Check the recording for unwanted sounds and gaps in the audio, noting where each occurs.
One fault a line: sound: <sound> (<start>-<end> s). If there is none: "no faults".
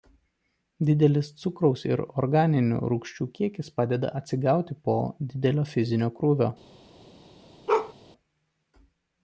sound: bark (7.7-7.9 s)